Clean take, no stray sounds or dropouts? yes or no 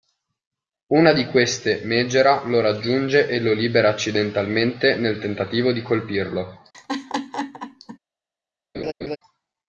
no